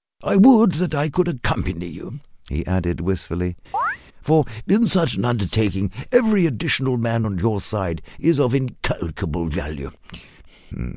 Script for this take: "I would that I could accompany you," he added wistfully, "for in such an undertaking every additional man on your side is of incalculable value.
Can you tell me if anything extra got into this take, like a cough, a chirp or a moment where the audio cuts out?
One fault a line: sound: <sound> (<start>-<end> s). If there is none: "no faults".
sound: chirp (3.7-4.0 s)